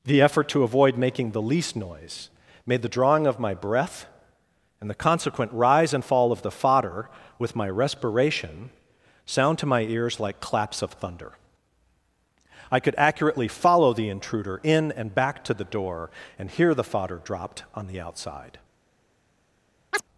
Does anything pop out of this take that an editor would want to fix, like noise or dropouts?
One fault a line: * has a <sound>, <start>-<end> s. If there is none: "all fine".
* has a chirp, 19.9-20.0 s